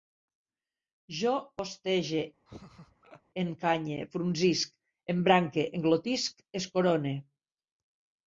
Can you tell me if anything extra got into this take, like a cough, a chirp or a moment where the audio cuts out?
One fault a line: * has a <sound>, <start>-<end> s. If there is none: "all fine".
* has a laugh, 2.5-3.2 s